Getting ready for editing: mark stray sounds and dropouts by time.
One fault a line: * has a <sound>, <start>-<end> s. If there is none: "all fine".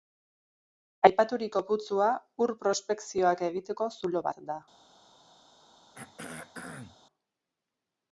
* has a throat clearing, 5.9-7.0 s